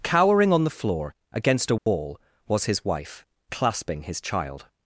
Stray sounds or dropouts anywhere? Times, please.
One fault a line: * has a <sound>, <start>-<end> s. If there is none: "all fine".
* has a dropout, 1.8-1.9 s